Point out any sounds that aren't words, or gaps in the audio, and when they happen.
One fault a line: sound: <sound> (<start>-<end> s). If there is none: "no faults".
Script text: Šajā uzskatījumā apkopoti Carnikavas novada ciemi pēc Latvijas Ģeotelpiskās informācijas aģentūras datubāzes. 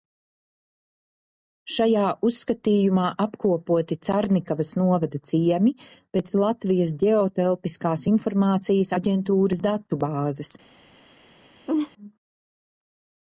sound: laugh (11.7-11.9 s)